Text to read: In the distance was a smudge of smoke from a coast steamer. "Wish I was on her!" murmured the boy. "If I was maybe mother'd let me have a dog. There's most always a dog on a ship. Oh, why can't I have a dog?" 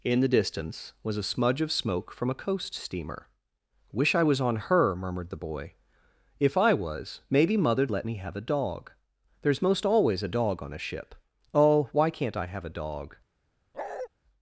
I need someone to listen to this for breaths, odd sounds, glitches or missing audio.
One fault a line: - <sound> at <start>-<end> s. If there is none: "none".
- bark at 13.7-14.1 s